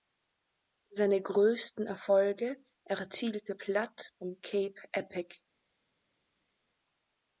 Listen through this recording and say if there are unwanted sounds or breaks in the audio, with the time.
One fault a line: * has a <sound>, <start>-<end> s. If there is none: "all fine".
all fine